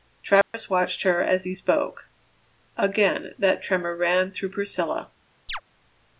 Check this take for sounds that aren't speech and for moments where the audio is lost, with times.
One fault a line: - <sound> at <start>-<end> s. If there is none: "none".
- dropout at 0.4-0.5 s
- chirp at 5.5-5.6 s